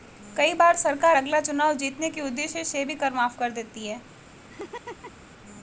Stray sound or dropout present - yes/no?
yes